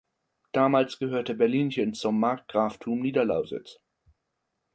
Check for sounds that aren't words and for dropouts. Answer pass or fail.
pass